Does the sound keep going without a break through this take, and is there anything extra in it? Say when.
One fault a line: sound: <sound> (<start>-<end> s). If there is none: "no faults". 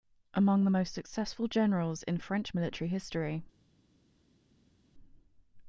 no faults